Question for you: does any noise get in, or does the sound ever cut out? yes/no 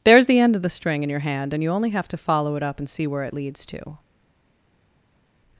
no